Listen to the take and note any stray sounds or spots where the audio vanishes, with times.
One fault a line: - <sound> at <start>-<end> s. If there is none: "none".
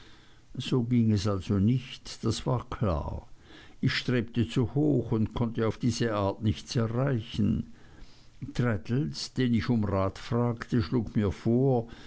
none